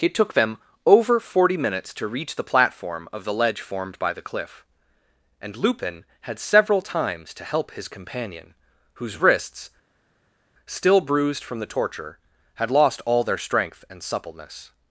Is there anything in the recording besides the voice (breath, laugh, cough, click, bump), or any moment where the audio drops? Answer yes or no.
no